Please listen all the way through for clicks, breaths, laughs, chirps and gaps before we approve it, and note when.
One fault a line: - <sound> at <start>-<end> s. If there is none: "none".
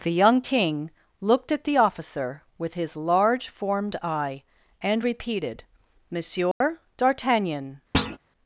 - dropout at 6.5-6.6 s
- thud at 7.9-8.2 s